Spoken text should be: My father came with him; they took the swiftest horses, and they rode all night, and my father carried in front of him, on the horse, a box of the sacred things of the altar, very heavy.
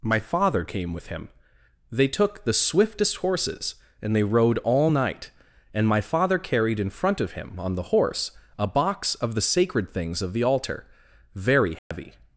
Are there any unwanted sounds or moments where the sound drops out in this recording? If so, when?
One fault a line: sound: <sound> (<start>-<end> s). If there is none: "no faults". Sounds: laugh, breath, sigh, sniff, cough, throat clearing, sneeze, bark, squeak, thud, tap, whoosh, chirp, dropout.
sound: dropout (11.8-11.9 s)